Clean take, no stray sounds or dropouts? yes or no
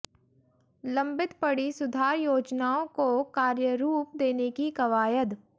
yes